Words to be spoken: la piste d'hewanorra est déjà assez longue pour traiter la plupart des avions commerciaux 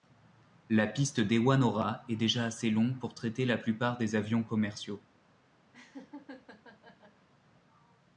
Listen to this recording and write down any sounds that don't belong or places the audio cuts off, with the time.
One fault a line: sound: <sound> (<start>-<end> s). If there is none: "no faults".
sound: laugh (5.7-7.3 s)